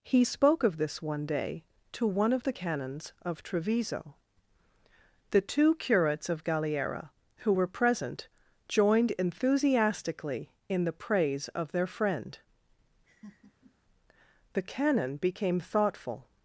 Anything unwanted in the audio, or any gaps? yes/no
yes